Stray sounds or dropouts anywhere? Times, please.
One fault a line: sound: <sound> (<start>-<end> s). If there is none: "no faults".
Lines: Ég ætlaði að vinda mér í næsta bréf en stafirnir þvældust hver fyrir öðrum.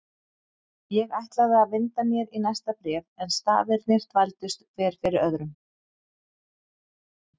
no faults